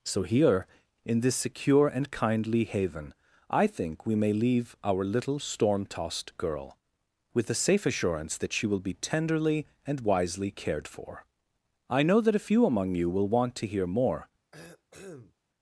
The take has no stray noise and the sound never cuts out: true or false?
false